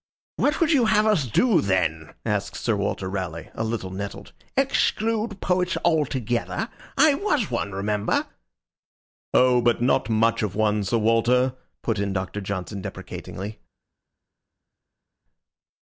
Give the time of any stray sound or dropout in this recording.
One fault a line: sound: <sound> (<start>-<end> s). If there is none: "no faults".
no faults